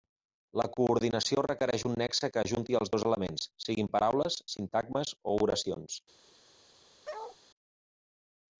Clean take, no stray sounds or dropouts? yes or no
no